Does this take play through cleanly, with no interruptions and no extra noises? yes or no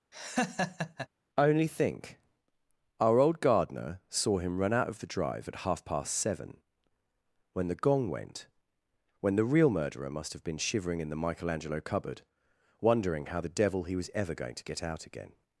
no